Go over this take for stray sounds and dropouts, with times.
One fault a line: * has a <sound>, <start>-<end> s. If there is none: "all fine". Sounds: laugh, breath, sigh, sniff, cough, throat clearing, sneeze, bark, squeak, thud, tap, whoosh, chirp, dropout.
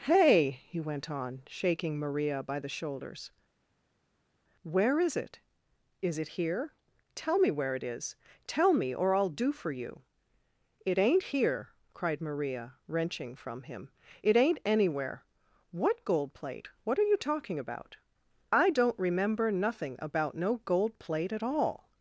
all fine